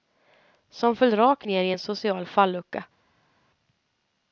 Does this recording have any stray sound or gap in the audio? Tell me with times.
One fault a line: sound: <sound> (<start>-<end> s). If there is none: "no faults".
no faults